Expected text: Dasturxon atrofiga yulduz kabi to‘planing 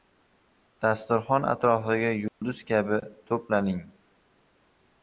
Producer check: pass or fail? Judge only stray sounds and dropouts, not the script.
fail